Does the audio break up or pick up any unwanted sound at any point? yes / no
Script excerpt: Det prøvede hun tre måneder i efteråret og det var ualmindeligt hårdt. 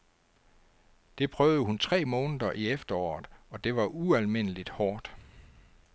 no